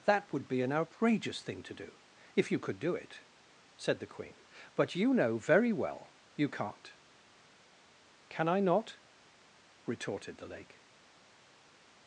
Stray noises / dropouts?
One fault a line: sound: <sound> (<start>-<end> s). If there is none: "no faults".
no faults